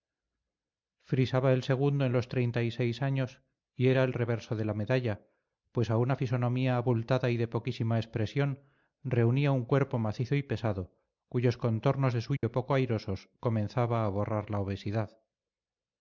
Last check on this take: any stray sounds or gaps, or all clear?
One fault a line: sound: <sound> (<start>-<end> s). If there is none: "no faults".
sound: dropout (12.4-12.4 s)